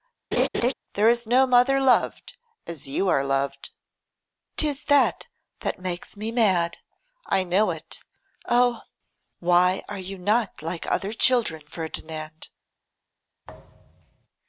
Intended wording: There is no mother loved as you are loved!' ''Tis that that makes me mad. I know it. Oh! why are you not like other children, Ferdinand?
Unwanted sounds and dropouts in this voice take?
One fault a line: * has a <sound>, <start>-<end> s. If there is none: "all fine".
* has a laugh, 0.3-0.7 s
* has a thud, 13.4-14.3 s